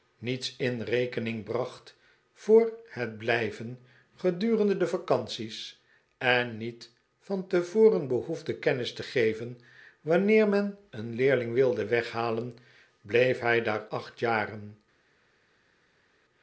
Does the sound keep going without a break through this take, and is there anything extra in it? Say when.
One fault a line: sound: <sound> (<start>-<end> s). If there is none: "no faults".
no faults